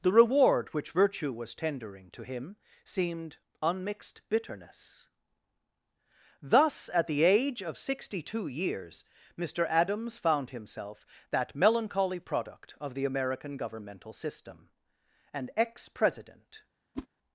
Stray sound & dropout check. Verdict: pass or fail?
fail